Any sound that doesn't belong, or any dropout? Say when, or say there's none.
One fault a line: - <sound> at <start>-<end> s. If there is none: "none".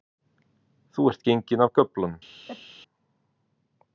- sneeze at 2.5-2.7 s